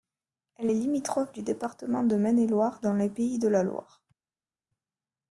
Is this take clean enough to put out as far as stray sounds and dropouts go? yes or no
yes